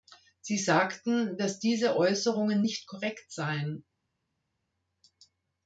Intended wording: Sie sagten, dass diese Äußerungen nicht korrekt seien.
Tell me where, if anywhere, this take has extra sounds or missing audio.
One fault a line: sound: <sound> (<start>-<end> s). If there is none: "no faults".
no faults